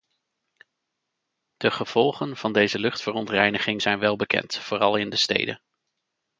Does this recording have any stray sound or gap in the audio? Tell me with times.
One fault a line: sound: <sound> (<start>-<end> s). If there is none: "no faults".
no faults